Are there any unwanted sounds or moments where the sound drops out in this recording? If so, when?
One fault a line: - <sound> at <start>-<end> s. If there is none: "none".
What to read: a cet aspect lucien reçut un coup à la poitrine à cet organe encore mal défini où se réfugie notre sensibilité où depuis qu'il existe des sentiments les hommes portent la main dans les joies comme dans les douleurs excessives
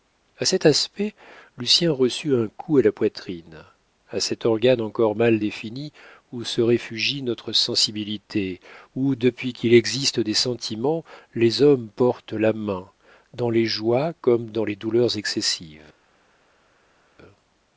none